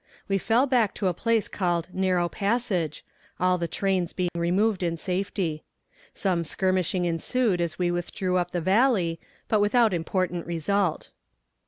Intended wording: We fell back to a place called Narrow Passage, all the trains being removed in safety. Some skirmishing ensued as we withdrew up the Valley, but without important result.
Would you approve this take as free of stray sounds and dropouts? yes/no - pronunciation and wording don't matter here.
no